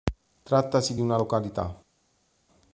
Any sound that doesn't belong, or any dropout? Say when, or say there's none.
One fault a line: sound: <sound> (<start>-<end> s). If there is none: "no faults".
no faults